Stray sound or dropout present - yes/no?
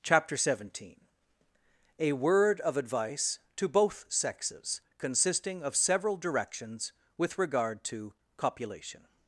no